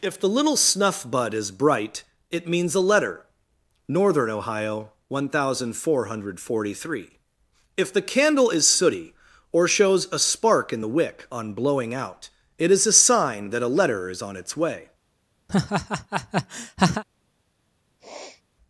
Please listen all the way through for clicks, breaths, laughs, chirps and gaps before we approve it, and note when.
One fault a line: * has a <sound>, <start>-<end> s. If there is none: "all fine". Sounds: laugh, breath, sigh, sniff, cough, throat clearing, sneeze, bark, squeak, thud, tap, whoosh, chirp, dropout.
* has a laugh, 15.5-17.0 s
* has a sniff, 18.0-18.4 s